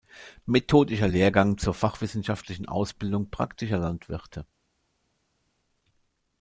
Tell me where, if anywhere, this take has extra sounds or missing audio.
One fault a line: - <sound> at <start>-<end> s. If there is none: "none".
none